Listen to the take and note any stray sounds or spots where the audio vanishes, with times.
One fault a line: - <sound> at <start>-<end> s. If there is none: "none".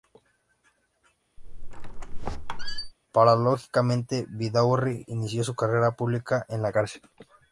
- squeak at 1.4-2.9 s